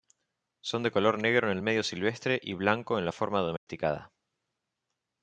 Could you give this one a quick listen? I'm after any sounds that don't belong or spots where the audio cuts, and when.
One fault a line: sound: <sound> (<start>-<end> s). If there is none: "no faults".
sound: dropout (3.6-3.7 s)